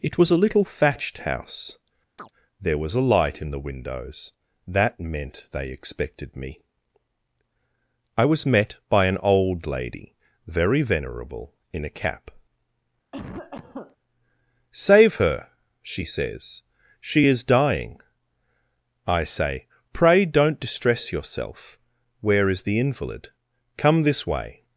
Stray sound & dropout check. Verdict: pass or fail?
fail